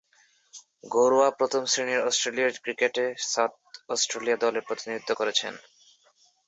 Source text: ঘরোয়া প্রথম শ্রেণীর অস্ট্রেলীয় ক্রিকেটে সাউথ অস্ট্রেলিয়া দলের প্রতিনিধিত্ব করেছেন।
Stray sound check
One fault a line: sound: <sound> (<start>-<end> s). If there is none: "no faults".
no faults